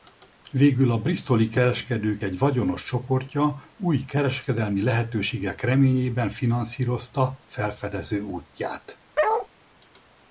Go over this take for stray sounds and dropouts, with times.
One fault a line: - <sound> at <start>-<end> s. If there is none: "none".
- bark at 9.2-9.5 s